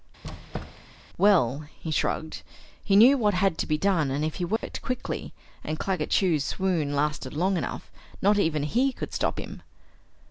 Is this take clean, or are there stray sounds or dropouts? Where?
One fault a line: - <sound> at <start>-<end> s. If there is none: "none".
- squeak at 0.2-1.0 s
- dropout at 4.6-4.6 s